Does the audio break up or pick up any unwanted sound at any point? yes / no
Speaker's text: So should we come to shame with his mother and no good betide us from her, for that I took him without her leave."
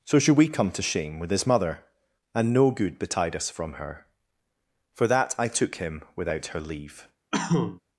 yes